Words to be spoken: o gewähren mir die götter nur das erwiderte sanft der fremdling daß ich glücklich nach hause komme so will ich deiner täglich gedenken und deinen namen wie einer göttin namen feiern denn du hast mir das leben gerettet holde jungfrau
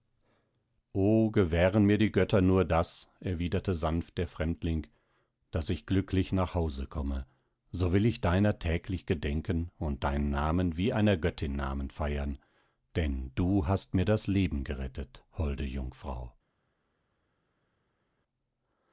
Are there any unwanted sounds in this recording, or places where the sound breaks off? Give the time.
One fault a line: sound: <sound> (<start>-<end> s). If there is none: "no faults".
no faults